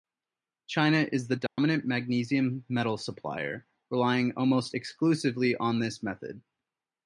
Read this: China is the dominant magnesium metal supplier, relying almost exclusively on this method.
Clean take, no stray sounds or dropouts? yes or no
no